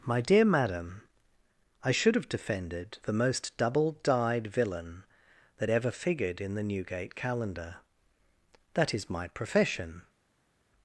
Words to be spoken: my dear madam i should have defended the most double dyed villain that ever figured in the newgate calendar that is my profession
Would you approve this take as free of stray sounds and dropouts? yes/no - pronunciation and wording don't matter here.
yes